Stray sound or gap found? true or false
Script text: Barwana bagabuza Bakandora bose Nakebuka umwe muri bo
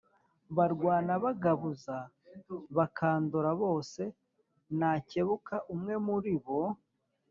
false